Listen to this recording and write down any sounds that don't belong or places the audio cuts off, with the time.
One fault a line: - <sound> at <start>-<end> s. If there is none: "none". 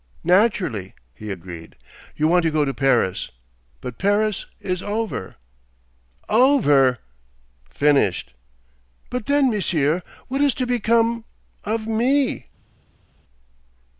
none